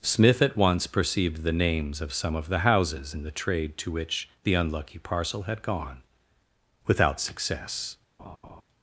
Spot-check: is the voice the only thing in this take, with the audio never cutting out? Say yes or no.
no